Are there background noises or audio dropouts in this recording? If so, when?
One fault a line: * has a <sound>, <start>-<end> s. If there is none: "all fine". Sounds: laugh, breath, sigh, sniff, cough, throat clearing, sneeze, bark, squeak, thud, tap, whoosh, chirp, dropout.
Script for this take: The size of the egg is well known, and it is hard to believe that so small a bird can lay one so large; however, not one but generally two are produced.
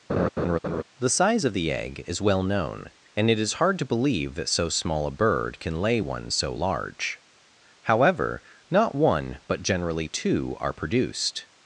* has a laugh, 0.1-0.8 s